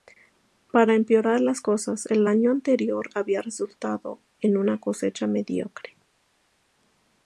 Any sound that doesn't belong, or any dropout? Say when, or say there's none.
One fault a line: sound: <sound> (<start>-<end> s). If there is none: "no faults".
no faults